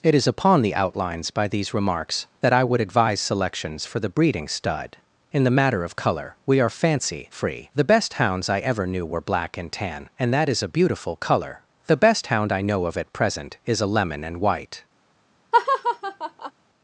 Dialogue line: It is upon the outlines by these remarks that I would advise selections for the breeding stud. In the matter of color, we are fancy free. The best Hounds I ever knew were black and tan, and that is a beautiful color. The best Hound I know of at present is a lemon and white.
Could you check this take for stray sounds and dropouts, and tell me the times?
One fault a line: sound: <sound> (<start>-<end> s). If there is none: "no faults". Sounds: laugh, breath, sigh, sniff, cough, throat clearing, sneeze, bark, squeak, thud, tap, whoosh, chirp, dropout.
sound: laugh (15.5-16.5 s)